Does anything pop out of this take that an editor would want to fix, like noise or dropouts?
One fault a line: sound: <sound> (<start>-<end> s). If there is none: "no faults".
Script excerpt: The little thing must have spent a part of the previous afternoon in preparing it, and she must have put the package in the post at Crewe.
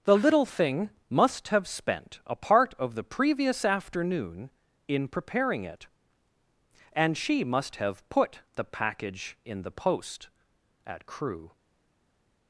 no faults